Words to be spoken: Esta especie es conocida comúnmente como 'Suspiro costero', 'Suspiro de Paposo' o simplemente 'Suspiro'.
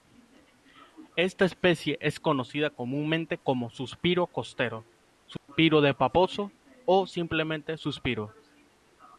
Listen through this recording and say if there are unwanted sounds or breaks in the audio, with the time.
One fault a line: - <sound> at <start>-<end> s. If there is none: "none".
- dropout at 5.4-5.5 s